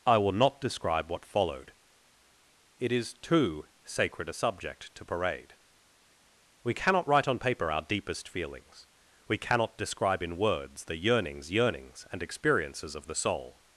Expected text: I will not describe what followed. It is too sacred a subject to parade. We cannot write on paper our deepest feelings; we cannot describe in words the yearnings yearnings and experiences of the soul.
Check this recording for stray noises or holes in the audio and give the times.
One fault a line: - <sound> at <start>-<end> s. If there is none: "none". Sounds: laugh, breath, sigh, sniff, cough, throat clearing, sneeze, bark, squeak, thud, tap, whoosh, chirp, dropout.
none